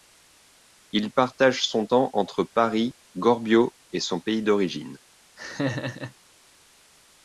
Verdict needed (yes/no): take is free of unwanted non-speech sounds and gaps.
no